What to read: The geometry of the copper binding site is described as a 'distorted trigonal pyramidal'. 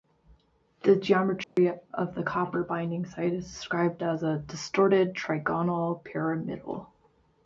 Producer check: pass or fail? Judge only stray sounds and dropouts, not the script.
fail